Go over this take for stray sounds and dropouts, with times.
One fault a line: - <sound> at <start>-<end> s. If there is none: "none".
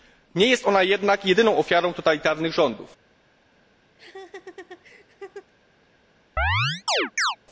- laugh at 4.0-5.5 s
- chirp at 6.4-7.4 s